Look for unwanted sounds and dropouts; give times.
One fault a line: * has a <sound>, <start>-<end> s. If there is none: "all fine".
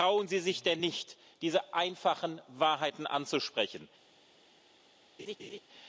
* has a laugh, 5.2-5.6 s